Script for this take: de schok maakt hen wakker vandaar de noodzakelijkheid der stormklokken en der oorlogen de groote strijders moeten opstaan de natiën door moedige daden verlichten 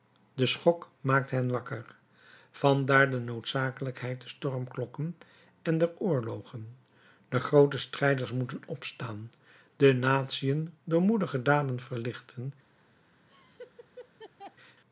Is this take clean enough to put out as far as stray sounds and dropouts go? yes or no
no